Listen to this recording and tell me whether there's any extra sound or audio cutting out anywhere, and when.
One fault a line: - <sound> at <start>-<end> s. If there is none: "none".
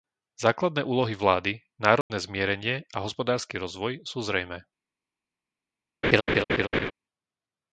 - dropout at 2.0-2.1 s
- laugh at 6.0-6.9 s